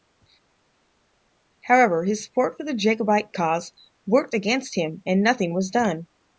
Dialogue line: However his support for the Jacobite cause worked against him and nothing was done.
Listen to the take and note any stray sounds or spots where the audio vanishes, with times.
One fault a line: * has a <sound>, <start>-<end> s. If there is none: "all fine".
all fine